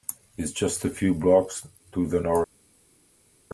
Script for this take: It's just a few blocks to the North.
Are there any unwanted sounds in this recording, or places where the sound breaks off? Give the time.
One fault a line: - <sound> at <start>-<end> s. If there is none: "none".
none